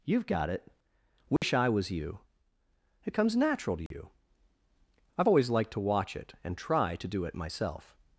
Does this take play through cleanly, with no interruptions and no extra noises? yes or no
no